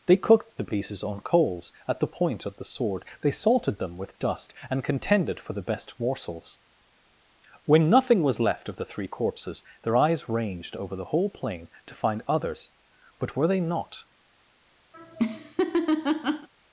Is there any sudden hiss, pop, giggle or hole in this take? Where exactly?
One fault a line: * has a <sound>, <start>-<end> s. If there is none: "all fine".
* has a laugh, 14.9-16.5 s